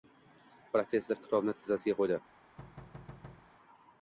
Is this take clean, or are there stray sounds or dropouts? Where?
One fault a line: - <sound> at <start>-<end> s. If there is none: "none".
- thud at 2.6-3.5 s